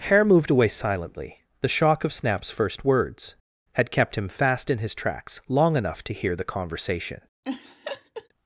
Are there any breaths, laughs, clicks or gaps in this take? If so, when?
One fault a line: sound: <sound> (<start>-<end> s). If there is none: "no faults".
sound: laugh (7.4-8.3 s)